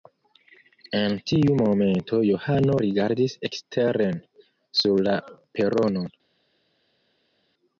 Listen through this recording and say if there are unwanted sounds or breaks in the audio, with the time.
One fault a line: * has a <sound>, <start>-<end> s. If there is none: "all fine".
all fine